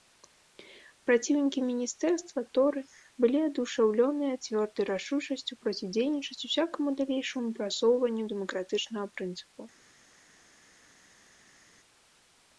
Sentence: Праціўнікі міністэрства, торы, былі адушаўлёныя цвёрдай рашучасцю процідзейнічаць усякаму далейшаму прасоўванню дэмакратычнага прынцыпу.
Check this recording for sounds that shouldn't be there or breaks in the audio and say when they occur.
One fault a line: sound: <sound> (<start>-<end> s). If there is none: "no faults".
no faults